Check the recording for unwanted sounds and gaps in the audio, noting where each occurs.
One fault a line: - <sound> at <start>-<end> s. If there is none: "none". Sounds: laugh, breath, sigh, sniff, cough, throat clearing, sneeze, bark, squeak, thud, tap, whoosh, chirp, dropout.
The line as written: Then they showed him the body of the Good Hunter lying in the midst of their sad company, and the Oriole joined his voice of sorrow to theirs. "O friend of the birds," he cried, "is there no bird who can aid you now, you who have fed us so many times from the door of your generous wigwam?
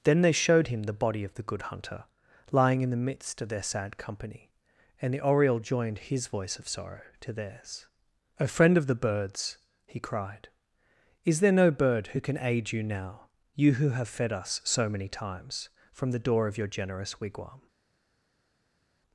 none